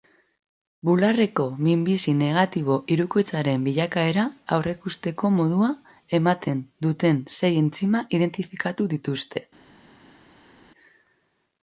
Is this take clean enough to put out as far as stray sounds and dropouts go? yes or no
yes